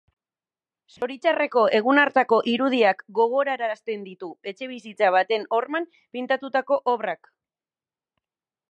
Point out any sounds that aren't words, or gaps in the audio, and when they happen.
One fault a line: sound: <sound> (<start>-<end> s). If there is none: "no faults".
sound: dropout (1.0-1.0 s)